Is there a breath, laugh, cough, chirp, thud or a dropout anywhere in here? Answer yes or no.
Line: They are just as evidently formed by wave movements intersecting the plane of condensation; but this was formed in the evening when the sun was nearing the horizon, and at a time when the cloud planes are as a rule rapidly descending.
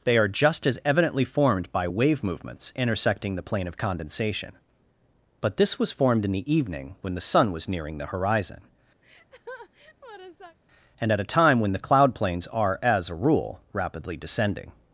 yes